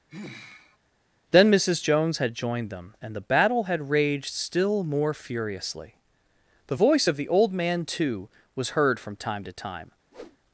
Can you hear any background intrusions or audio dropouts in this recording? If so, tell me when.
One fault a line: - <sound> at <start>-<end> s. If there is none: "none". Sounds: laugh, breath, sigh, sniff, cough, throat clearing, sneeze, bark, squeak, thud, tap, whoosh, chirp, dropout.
- sigh at 0.1-0.8 s
- whoosh at 10.1-10.4 s